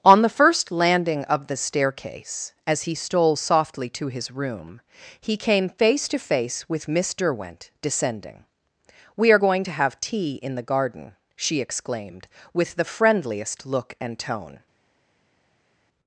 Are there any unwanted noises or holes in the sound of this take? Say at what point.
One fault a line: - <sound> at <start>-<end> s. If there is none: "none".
none